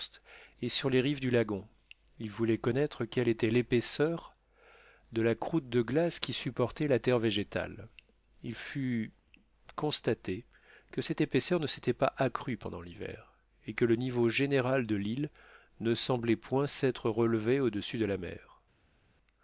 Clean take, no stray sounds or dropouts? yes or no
yes